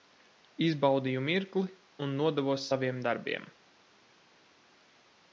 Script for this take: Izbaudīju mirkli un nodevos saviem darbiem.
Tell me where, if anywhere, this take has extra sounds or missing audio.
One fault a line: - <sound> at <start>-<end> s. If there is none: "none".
none